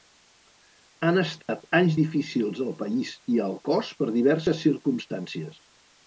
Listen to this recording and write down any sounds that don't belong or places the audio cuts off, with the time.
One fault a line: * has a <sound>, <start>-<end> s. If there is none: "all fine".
* has a dropout, 1.4-1.5 s